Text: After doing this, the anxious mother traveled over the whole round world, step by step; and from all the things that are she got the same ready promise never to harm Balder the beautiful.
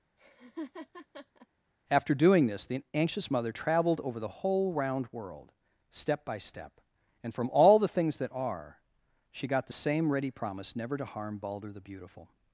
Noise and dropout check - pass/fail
fail